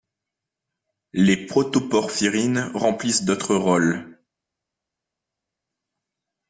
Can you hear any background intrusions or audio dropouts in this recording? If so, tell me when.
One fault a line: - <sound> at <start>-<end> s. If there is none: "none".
none